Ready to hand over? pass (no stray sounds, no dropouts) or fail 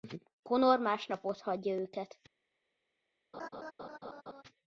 fail